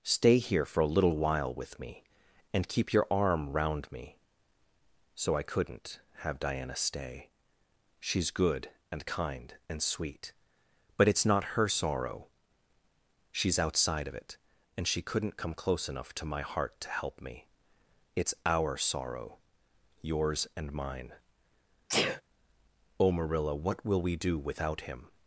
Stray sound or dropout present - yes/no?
yes